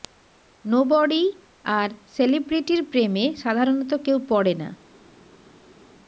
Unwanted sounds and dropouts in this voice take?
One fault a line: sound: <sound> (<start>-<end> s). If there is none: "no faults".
no faults